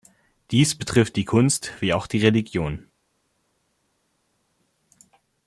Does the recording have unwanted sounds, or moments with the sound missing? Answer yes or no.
no